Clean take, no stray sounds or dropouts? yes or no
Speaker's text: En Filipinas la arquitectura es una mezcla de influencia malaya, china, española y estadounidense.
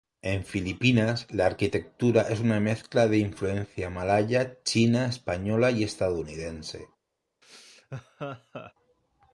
no